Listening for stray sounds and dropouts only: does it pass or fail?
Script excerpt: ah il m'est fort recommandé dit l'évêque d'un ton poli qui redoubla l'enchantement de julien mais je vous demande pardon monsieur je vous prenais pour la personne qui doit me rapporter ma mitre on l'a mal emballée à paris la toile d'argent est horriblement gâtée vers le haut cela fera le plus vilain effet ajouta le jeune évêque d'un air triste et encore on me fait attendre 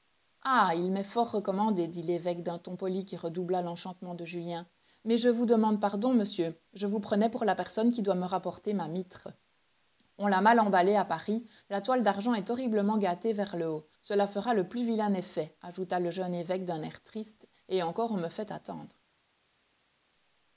pass